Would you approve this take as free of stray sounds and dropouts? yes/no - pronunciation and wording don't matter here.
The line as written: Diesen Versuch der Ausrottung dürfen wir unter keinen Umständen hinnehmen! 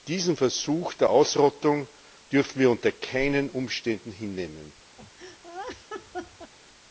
no